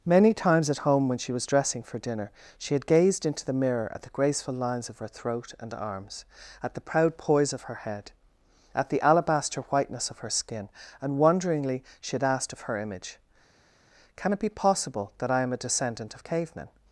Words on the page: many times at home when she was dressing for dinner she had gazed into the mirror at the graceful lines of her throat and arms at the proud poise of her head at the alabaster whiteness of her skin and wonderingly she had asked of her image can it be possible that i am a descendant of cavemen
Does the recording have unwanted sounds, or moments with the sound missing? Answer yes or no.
no